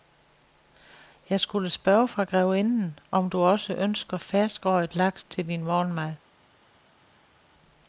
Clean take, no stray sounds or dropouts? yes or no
yes